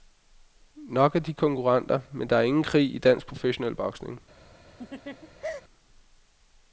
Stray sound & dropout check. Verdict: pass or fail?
fail